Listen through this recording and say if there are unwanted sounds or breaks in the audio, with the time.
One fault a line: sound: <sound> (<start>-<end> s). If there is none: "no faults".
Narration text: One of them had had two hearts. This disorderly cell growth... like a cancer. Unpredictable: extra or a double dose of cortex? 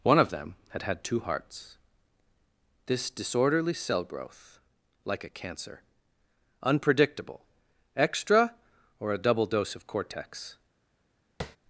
sound: tap (11.4-11.6 s)